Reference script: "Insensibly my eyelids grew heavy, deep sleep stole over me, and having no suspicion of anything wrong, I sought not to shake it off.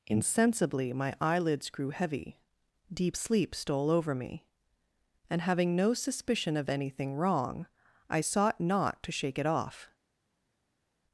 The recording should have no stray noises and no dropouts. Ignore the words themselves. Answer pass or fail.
pass